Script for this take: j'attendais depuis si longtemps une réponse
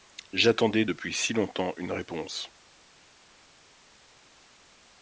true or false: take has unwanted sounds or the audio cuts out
false